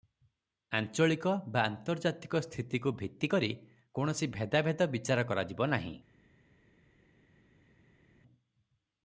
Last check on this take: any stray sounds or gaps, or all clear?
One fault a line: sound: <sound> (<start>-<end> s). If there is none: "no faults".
no faults